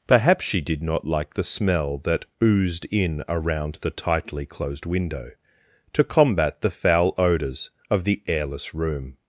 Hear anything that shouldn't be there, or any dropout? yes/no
no